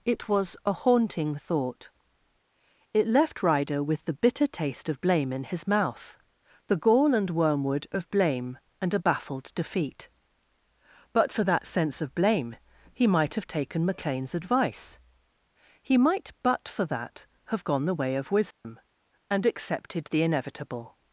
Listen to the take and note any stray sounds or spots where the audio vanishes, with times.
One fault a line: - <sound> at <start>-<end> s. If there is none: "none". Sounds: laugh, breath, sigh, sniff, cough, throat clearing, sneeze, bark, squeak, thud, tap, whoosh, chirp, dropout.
- dropout at 18.5-18.6 s